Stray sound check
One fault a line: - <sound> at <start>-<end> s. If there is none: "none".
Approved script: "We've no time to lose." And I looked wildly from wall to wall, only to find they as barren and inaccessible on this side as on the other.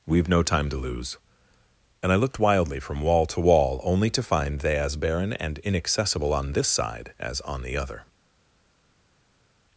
none